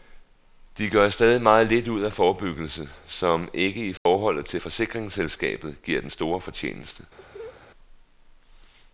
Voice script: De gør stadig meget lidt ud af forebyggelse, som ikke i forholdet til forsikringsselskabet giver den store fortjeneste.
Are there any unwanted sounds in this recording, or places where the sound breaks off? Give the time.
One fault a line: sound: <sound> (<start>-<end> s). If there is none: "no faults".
sound: dropout (4.0-4.1 s)
sound: laugh (7.2-7.6 s)